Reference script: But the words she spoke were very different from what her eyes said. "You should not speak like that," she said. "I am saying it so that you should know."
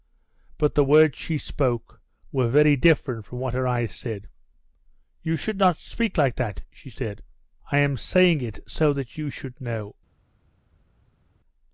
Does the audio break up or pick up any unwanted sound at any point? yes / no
no